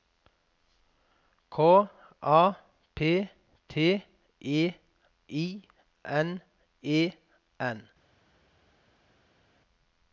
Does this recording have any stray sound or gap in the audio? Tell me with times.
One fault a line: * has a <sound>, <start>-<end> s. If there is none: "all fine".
all fine